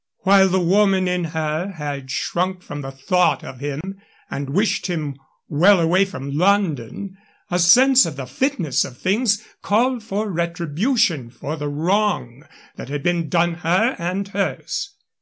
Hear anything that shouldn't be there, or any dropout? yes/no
yes